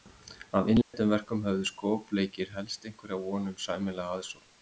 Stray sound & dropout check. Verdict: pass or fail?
fail